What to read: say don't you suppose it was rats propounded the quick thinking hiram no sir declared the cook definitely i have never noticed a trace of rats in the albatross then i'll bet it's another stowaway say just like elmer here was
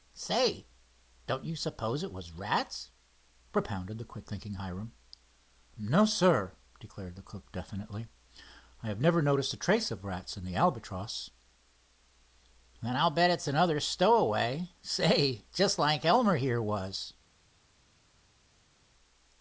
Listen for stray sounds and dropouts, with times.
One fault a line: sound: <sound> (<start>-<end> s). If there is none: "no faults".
no faults